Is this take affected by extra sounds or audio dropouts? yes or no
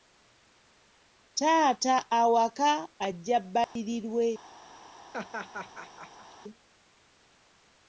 yes